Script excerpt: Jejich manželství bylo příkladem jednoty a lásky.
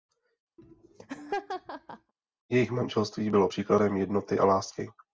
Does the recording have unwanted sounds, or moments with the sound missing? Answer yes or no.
yes